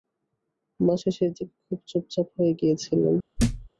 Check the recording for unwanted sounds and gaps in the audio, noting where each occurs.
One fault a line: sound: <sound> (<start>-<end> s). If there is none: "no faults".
sound: thud (3.4-3.7 s)